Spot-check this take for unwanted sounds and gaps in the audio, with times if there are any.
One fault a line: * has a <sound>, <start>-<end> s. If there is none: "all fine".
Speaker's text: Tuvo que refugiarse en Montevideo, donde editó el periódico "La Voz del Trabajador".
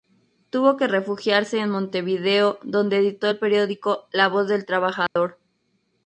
* has a dropout, 5.1-5.2 s